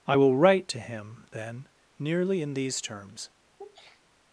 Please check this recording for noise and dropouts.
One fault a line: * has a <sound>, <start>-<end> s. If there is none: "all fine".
* has a sneeze, 3.6-4.1 s